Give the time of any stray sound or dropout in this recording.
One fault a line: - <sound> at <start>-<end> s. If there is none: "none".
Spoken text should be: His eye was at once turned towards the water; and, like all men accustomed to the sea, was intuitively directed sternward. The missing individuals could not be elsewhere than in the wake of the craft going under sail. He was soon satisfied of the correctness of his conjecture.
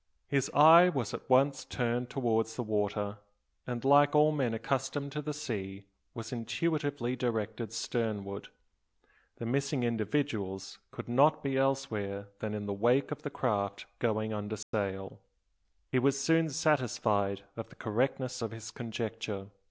- dropout at 14.6-14.7 s